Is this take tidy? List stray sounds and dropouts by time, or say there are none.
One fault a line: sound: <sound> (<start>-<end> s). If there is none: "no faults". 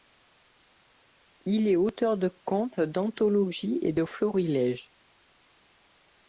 no faults